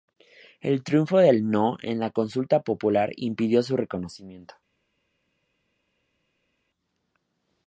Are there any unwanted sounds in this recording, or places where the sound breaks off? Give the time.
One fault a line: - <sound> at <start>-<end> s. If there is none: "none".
none